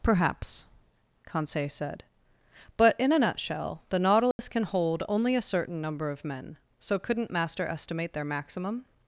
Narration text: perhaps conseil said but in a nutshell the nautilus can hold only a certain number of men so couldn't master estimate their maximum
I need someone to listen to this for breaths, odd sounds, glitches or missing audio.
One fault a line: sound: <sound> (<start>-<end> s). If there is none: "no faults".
sound: dropout (4.3-4.4 s)